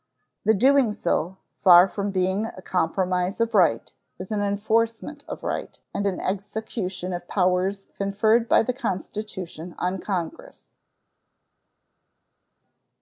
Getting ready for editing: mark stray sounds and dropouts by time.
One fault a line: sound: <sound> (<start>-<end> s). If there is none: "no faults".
no faults